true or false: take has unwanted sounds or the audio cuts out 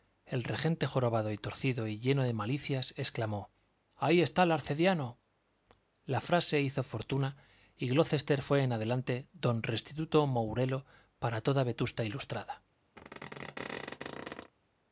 true